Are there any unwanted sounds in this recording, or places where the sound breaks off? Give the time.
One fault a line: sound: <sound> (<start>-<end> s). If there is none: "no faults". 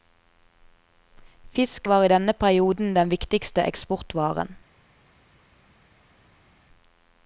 no faults